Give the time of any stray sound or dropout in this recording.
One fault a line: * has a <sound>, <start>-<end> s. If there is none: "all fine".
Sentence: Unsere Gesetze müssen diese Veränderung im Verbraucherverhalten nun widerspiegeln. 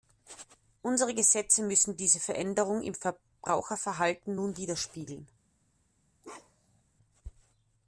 * has a bark, 6.2-6.8 s